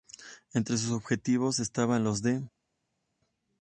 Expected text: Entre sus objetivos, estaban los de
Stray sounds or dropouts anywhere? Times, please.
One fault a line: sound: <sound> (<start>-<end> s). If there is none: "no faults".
no faults